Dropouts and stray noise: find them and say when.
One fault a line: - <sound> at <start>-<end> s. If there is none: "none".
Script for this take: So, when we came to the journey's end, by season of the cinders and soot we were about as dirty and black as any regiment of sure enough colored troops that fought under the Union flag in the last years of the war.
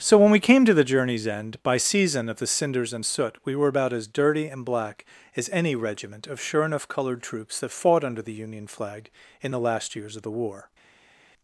none